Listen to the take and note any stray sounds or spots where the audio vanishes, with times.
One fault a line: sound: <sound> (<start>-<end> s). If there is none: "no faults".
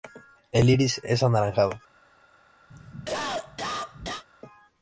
sound: cough (2.7-4.2 s)